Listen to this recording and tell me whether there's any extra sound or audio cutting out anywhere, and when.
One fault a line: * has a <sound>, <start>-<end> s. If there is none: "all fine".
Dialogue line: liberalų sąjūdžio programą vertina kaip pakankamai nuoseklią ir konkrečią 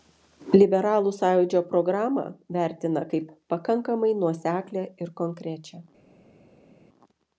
all fine